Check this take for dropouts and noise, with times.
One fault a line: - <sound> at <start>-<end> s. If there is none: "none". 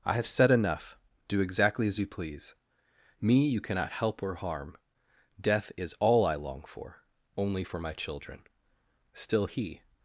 none